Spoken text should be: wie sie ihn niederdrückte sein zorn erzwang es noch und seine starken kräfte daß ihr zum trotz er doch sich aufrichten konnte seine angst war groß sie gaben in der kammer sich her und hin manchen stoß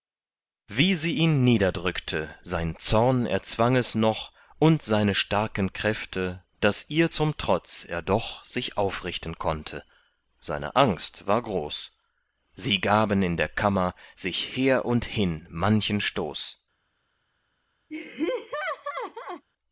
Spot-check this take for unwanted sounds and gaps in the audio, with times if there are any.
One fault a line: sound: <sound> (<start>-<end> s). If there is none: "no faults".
sound: laugh (17.9-19.4 s)